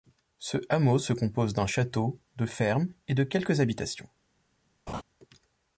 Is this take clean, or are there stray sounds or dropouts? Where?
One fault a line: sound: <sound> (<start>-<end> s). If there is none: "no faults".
sound: laugh (4.9-5.0 s)